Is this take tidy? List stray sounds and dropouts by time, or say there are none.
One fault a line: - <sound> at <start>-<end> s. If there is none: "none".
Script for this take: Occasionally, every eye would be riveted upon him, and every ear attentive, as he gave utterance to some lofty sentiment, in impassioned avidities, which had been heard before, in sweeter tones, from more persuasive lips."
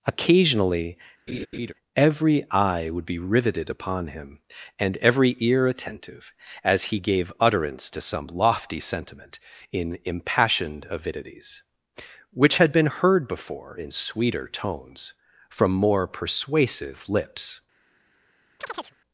- laugh at 1.3-1.7 s
- chirp at 18.6-18.9 s